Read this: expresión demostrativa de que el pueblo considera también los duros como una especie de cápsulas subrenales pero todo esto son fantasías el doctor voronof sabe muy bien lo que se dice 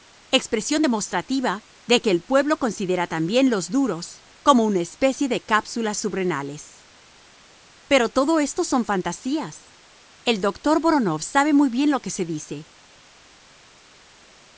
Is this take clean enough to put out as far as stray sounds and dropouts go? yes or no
yes